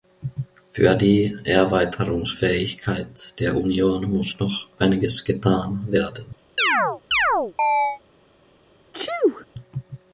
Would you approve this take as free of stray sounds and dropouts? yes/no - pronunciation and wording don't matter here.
no